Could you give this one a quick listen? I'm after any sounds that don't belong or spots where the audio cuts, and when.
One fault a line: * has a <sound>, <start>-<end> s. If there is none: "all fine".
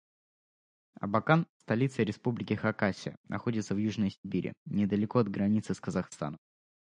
all fine